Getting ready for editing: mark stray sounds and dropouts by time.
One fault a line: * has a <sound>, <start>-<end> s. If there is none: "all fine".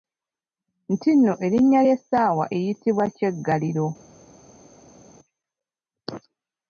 all fine